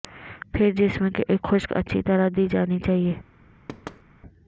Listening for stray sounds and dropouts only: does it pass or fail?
fail